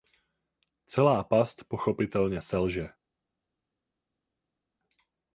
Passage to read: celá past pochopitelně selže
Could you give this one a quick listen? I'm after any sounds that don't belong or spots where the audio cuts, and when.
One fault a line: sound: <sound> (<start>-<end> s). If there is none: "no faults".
no faults